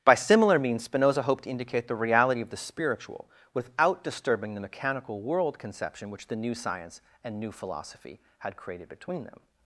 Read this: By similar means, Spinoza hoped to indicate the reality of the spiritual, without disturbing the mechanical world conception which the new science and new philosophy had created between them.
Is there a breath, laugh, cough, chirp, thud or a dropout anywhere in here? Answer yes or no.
no